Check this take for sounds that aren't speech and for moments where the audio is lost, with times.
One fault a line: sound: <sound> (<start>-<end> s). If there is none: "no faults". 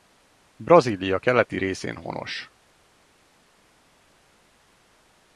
no faults